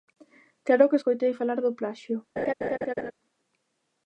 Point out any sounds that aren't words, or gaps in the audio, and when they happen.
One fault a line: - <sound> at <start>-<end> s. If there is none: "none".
- laugh at 2.4-3.1 s